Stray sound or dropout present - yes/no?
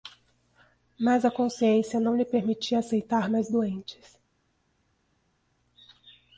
no